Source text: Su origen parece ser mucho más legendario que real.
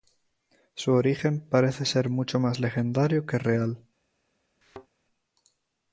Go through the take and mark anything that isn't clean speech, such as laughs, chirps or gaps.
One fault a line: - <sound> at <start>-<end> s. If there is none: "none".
- thud at 4.6-4.9 s